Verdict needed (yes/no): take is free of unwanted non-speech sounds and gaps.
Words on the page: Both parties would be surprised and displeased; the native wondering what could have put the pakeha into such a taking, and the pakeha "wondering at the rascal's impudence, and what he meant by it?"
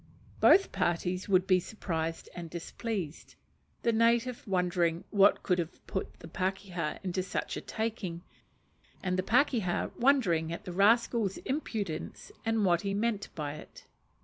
yes